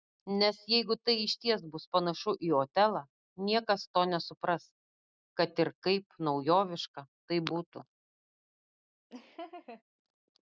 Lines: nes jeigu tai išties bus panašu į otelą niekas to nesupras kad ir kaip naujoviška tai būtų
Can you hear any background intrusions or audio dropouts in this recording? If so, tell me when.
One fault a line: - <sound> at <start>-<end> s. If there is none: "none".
- laugh at 9.1-9.8 s